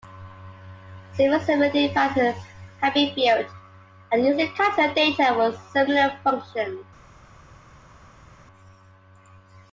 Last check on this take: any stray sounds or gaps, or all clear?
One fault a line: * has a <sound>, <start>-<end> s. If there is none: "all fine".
all fine